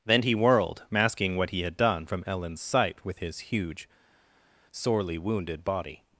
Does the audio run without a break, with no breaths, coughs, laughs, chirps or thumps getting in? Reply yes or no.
yes